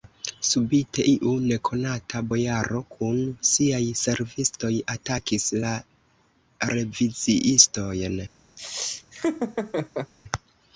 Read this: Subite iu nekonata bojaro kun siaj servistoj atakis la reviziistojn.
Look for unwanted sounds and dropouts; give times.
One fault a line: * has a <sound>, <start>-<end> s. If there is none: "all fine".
* has a laugh, 8.6-10.1 s